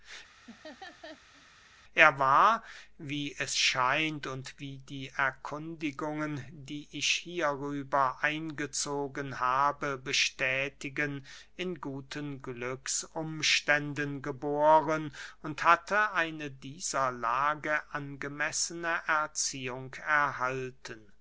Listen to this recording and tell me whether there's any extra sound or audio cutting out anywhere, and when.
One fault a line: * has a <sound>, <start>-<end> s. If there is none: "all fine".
* has a laugh, 0.5-1.5 s